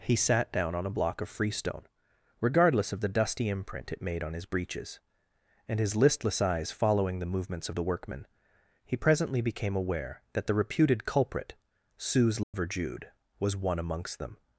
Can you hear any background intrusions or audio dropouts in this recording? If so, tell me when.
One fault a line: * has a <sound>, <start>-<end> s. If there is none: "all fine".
* has a dropout, 12.4-12.5 s